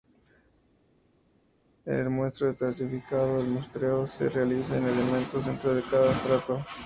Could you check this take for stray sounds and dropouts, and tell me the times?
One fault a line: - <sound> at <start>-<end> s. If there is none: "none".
none